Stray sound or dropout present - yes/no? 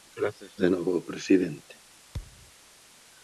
yes